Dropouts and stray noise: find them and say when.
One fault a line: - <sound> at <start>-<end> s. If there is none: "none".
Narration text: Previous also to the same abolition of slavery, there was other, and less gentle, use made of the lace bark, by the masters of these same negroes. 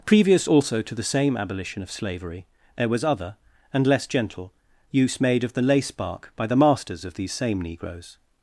none